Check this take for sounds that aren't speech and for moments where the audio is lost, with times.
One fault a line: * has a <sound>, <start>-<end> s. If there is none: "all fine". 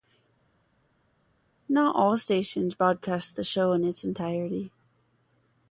all fine